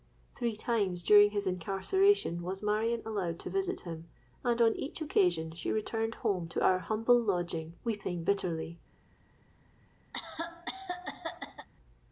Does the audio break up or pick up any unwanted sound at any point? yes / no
yes